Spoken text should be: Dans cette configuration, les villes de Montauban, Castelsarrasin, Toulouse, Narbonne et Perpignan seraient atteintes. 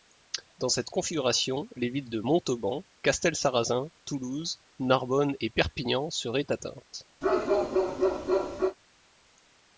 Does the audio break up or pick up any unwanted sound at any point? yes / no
yes